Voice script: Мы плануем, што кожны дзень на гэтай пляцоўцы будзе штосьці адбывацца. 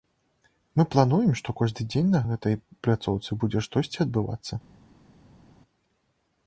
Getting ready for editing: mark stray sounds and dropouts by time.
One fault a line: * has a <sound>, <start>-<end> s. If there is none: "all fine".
all fine